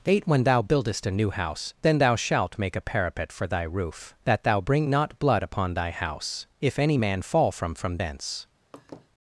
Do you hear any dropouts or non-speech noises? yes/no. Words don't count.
yes